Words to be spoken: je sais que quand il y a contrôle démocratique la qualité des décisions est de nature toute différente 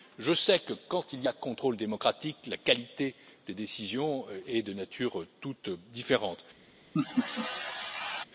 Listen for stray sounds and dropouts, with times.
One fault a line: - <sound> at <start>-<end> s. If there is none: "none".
- laugh at 6.9-8.2 s